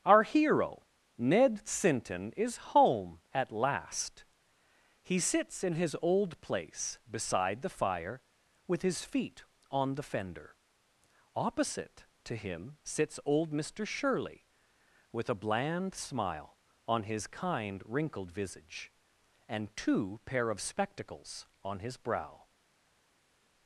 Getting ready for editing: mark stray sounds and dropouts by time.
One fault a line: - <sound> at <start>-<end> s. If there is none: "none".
none